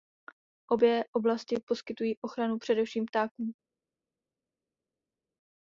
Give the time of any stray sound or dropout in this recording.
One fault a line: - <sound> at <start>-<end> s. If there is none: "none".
none